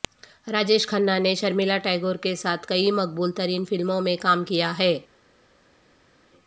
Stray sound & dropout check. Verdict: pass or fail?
pass